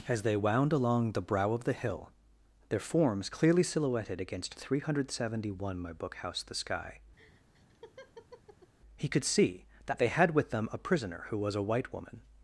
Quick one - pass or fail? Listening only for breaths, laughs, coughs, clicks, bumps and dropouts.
fail